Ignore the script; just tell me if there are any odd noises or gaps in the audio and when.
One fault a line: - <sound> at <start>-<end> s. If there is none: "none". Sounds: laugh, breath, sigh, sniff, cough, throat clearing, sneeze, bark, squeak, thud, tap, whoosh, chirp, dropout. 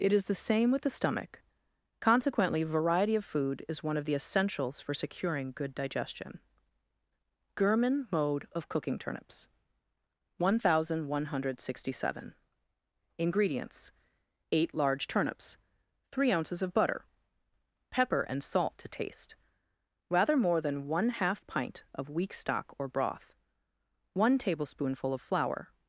none